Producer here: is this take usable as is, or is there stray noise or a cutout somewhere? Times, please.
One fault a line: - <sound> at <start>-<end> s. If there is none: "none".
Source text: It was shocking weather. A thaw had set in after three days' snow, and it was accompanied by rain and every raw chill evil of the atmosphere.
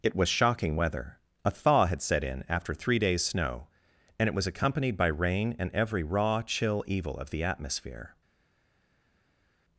none